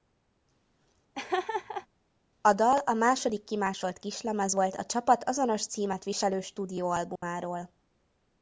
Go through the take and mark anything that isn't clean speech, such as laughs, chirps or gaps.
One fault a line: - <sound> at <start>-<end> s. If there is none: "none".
- laugh at 1.1-1.9 s
- dropout at 7.2-7.2 s